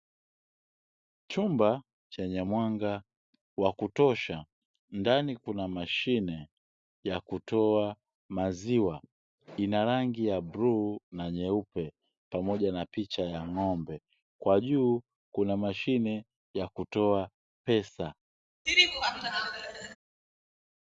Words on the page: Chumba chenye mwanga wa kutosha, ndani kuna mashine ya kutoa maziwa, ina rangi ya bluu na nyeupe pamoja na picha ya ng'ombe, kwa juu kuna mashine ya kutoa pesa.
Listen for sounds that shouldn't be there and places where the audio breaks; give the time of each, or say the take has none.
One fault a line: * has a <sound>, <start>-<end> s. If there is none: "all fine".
* has a laugh, 18.7-20.0 s